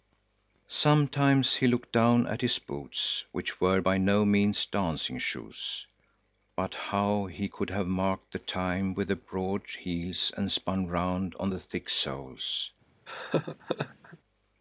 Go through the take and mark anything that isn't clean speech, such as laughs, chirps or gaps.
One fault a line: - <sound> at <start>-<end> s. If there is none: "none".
- laugh at 13.1-14.2 s